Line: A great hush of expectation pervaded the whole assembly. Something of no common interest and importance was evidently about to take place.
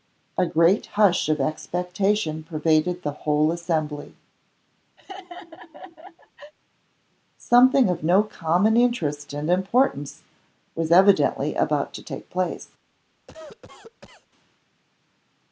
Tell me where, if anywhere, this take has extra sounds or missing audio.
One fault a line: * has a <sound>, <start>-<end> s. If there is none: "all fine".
* has a laugh, 5.0-6.5 s
* has a cough, 13.3-14.3 s